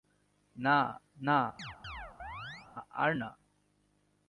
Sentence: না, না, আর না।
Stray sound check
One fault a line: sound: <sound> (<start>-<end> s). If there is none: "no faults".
sound: chirp (1.6-2.7 s)